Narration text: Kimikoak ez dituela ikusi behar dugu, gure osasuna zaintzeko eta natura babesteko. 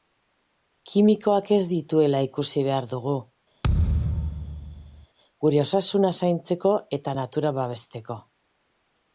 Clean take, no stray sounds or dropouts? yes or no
no